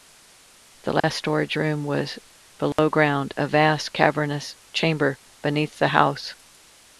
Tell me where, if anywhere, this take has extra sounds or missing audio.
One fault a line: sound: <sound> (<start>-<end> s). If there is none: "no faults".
sound: dropout (1.0-1.0 s)
sound: dropout (2.7-2.8 s)